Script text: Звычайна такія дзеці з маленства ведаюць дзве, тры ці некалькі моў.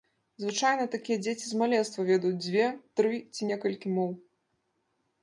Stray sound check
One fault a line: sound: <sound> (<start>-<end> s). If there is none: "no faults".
no faults